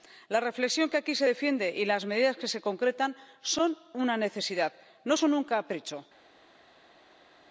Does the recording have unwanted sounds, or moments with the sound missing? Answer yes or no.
no